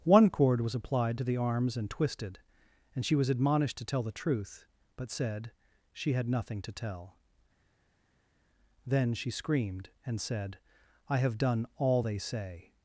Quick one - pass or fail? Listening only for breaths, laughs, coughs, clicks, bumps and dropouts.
pass